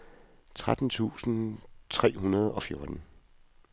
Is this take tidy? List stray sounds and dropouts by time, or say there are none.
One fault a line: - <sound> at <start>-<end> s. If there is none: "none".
none